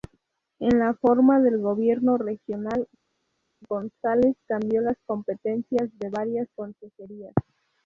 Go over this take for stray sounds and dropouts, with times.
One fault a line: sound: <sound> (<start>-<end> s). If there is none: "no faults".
no faults